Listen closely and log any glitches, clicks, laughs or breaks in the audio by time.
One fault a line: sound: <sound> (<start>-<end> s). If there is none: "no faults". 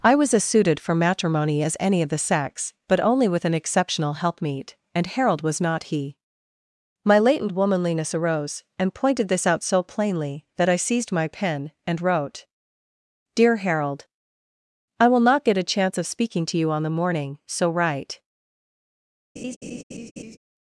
sound: laugh (19.4-20.4 s)